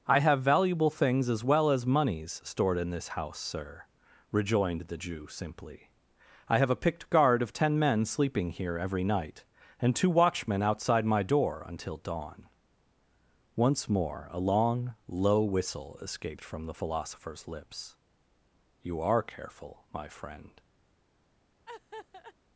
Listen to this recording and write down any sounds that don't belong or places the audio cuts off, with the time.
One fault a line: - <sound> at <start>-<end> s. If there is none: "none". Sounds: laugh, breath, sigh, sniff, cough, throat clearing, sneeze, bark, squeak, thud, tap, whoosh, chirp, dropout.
- laugh at 21.7-22.3 s